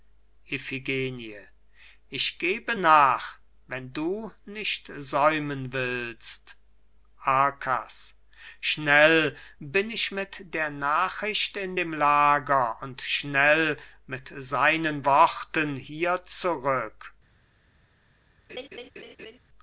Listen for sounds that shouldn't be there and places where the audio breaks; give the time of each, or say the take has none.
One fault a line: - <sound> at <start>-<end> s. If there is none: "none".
- laugh at 18.5-19.4 s